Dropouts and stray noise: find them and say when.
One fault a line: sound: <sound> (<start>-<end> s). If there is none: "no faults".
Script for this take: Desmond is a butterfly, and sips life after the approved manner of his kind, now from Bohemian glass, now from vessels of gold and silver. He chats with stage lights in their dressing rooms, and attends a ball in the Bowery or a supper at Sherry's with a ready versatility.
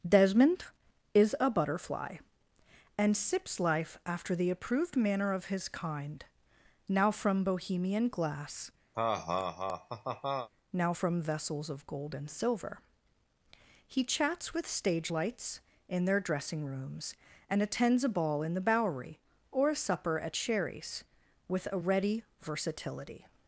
sound: laugh (8.9-10.5 s)